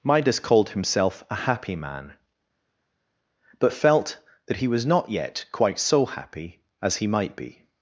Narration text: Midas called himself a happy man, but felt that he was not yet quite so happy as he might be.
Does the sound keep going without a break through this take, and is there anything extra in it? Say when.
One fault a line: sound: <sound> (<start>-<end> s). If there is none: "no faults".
no faults